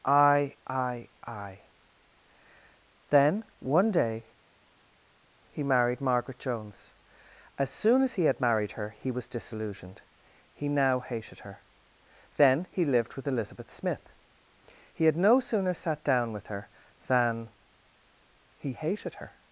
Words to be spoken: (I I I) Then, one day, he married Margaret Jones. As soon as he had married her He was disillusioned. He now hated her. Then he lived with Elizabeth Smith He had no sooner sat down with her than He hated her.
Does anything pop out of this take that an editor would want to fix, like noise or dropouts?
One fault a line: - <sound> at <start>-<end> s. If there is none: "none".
none